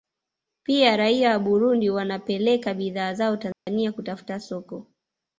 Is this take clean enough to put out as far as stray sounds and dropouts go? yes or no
no